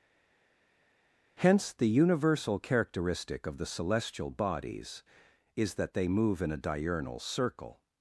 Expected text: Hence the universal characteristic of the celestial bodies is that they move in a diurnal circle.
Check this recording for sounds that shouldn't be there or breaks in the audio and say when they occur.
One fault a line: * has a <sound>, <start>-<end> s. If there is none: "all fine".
all fine